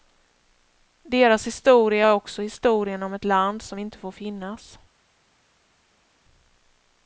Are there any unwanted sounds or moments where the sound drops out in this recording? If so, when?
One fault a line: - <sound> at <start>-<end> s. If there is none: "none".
none